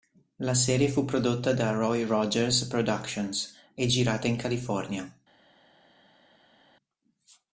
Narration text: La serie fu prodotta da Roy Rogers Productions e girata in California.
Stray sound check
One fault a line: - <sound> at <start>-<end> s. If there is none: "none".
none